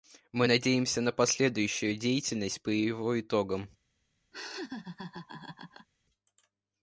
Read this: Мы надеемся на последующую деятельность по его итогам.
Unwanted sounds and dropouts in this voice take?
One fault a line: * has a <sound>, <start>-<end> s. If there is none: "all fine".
* has a laugh, 4.3-5.9 s